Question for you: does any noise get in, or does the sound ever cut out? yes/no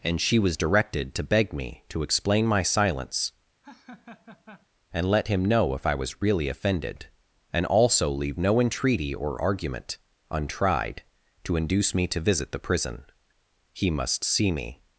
yes